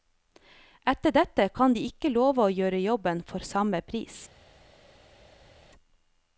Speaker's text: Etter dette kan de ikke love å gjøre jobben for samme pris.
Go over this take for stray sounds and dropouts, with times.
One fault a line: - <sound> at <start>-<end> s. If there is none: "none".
none